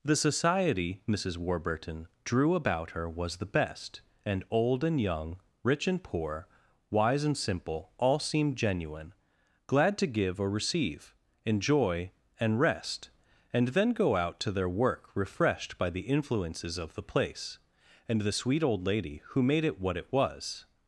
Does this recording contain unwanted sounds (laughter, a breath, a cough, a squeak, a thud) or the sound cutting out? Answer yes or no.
no